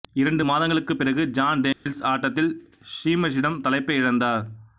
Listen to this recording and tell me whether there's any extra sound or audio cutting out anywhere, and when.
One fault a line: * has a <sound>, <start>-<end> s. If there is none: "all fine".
* has a dropout, 1.7-1.9 s